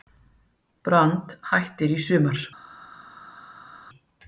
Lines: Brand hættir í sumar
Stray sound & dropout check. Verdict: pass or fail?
pass